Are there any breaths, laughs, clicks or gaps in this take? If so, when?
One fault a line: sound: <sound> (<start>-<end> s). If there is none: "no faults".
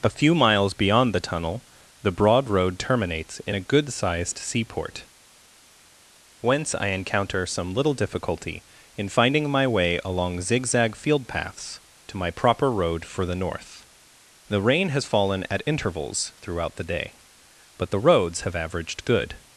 no faults